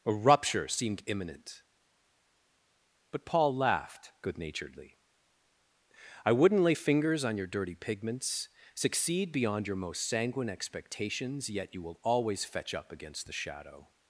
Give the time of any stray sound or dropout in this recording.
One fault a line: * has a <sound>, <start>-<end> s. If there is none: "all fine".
all fine